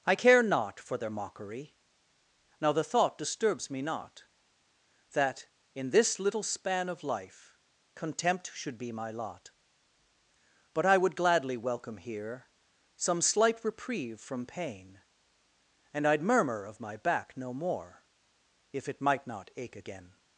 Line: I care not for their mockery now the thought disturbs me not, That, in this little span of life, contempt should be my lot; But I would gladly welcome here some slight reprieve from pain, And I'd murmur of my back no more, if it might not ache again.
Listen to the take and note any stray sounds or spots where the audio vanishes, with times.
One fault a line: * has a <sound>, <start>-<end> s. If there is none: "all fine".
all fine